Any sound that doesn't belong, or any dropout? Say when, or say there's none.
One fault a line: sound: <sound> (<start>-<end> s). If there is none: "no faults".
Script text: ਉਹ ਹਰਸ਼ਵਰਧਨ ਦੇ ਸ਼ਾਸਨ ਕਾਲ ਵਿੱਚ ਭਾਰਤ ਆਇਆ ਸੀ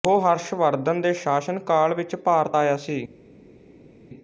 no faults